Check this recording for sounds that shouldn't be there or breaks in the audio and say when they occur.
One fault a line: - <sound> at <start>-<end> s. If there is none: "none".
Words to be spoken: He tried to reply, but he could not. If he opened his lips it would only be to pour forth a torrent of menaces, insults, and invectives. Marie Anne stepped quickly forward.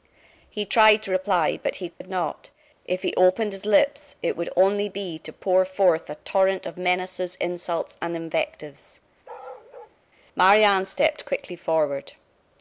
- dropout at 1.9-2.0 s
- bark at 9.2-10.0 s